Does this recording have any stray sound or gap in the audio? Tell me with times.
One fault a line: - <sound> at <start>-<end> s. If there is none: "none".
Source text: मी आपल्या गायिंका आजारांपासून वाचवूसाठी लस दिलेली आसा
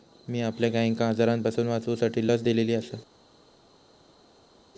none